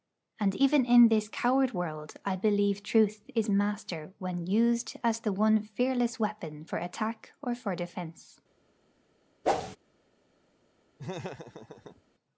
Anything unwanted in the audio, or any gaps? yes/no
yes